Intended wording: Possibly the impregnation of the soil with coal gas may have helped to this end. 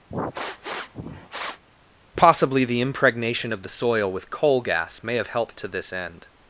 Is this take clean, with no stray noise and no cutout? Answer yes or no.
no